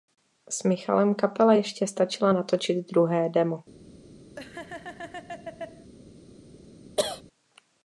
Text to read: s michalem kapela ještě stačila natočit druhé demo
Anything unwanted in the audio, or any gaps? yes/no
yes